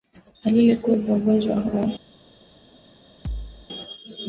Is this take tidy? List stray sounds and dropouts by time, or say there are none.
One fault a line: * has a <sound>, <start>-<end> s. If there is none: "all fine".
* has a thud, 3.2-3.7 s